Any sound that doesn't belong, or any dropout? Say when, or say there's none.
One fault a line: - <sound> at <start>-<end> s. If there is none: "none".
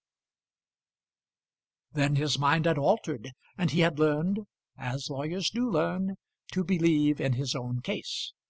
none